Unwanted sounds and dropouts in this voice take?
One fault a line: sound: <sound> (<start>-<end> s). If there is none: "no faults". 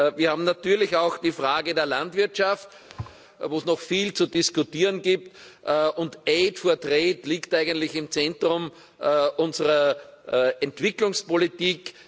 sound: thud (2.9-3.2 s)